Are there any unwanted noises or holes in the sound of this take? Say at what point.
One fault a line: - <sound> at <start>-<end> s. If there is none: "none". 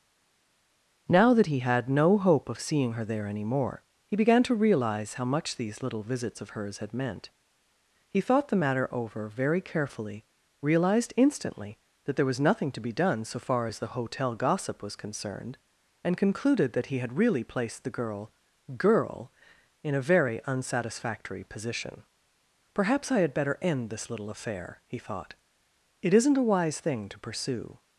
none